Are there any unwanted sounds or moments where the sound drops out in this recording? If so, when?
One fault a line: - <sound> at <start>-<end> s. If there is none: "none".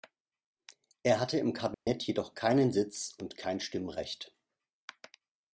- dropout at 1.7-1.9 s